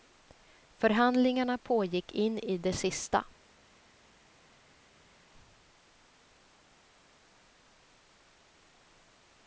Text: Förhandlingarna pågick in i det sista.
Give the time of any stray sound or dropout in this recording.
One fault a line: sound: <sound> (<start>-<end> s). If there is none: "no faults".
no faults